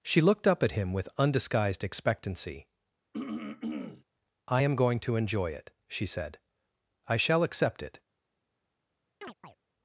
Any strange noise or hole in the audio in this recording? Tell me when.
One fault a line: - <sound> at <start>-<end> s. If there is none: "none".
- throat clearing at 3.1-4.0 s
- chirp at 9.2-9.6 s